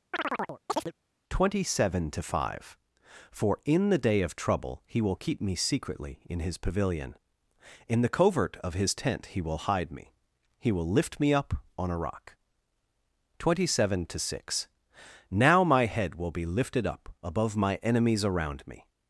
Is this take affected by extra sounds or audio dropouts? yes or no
yes